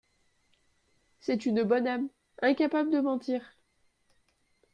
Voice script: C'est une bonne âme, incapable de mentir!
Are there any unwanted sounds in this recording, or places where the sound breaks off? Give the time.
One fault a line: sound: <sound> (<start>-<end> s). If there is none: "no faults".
no faults